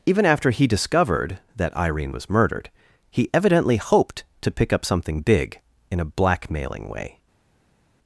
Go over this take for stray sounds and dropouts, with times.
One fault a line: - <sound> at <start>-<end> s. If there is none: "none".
none